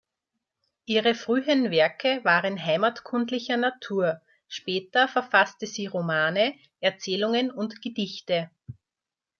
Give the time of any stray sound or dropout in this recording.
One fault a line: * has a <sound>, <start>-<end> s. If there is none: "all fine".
all fine